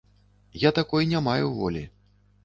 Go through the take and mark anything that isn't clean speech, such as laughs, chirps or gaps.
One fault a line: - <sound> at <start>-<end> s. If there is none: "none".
none